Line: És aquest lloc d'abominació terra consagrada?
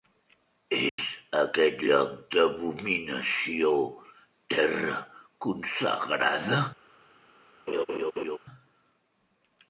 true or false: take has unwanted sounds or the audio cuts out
true